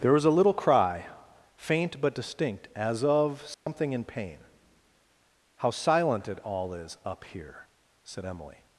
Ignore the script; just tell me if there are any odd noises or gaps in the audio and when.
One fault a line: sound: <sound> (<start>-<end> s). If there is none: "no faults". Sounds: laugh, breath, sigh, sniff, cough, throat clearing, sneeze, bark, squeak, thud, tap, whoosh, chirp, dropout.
sound: dropout (3.5-3.7 s)